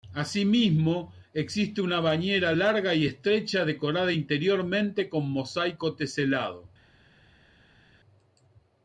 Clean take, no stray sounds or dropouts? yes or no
yes